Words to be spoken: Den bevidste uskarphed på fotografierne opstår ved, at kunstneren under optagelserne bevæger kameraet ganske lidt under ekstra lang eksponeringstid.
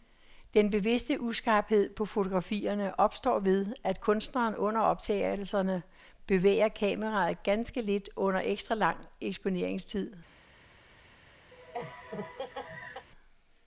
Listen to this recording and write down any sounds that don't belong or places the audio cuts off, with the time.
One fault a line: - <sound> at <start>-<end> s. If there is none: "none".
- laugh at 11.5-13.1 s